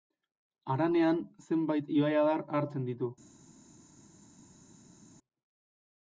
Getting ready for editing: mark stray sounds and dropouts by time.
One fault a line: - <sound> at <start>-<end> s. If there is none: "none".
none